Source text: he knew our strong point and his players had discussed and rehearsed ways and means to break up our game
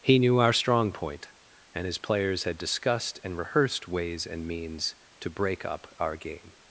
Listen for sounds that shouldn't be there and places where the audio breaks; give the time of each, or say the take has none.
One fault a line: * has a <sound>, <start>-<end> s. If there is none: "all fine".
all fine